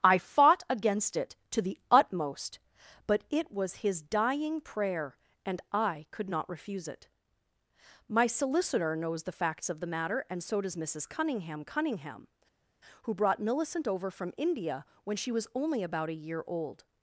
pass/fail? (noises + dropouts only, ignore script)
pass